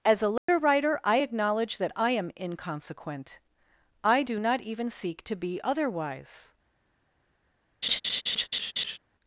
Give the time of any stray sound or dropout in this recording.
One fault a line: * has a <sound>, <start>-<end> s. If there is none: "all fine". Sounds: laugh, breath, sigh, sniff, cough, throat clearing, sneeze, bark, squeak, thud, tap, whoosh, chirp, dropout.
* has a dropout, 0.4-0.5 s
* has a laugh, 7.8-9.0 s